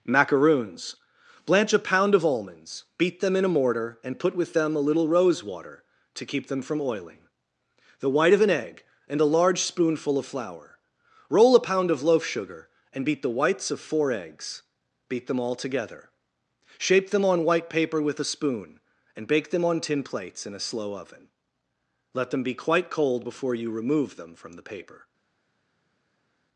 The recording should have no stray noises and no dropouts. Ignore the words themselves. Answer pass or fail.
pass